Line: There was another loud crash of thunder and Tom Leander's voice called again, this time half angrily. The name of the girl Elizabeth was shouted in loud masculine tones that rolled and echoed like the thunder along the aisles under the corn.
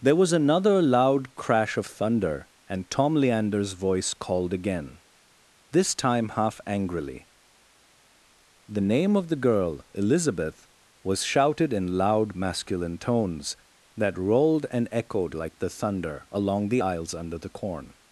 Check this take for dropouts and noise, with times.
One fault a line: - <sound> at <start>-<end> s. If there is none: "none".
none